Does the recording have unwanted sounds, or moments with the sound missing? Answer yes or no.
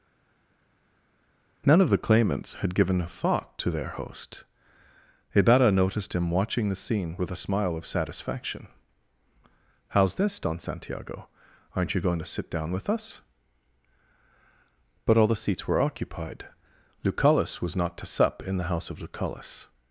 no